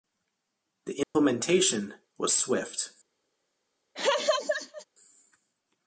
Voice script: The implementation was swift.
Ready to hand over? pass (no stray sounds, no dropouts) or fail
fail